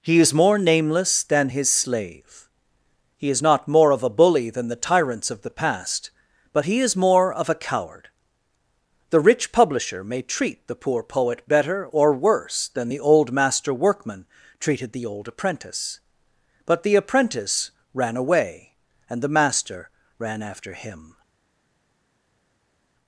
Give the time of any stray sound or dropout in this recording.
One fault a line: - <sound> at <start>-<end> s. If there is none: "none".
none